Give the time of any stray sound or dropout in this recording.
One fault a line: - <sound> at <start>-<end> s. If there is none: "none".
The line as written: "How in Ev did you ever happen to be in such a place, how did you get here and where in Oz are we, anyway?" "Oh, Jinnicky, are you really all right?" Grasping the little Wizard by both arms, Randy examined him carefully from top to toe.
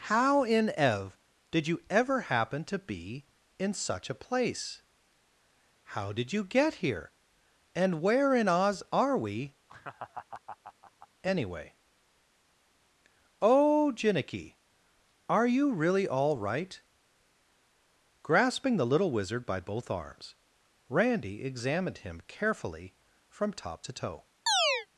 - laugh at 9.7-11.1 s
- chirp at 24.5-24.9 s